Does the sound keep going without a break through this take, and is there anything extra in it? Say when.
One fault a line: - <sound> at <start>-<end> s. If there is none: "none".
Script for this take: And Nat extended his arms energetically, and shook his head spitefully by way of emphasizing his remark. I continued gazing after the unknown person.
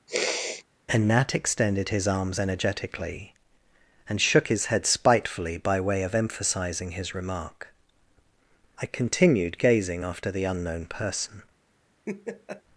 - sniff at 0.1-0.6 s
- laugh at 12.1-12.6 s